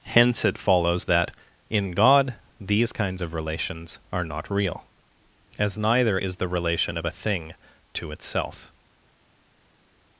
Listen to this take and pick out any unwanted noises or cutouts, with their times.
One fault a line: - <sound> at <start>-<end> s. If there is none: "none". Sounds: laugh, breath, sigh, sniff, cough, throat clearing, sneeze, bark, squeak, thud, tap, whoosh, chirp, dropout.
none